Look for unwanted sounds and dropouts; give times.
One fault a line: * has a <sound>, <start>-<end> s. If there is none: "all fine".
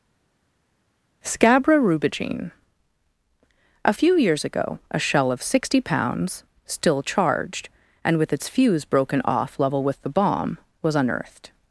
all fine